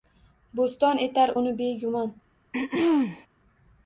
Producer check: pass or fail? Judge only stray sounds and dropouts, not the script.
fail